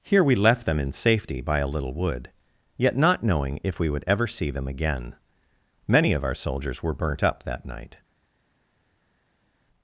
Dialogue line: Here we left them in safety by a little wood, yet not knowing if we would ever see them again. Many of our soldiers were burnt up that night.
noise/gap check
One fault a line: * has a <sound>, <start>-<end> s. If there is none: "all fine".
all fine